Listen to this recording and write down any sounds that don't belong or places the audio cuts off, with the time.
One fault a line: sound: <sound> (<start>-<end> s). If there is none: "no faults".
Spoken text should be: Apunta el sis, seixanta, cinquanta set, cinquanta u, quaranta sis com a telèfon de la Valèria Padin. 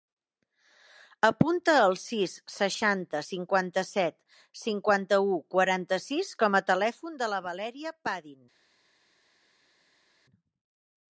no faults